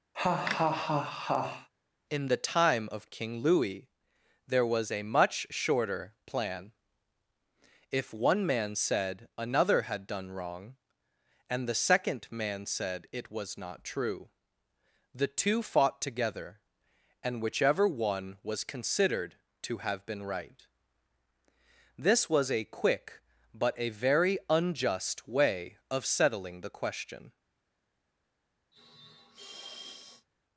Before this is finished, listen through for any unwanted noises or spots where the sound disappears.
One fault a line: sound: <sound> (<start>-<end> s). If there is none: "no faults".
sound: laugh (0.1-1.7 s)
sound: sniff (28.7-30.3 s)